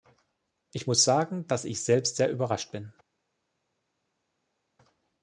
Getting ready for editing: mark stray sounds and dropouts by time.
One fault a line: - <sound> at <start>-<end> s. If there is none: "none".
none